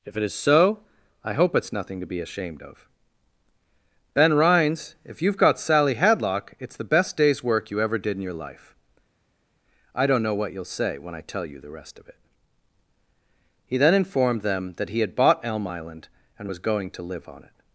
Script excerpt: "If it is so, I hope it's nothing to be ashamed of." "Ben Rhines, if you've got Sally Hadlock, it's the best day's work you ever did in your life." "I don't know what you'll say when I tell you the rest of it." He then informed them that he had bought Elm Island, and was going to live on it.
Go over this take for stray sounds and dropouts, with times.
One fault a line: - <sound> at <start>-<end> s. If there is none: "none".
none